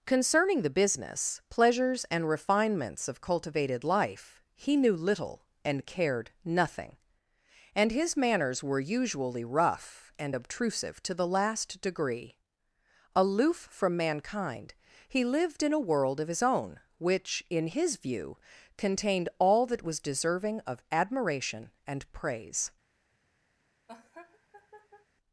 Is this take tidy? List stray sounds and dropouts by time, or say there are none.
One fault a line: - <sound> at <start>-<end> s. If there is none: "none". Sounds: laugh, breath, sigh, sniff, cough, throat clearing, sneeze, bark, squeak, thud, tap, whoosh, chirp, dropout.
- laugh at 23.9-25.1 s